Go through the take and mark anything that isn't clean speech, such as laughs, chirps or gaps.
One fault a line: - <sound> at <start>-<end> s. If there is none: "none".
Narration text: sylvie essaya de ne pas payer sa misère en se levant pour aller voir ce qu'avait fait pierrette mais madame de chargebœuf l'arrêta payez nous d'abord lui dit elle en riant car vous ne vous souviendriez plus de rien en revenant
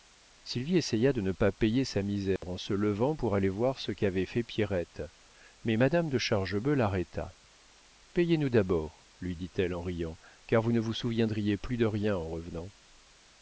- dropout at 2.4-2.4 s